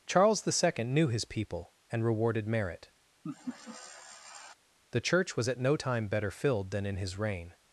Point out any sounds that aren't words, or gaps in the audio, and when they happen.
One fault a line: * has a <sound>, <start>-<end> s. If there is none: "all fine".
* has a laugh, 3.2-4.5 s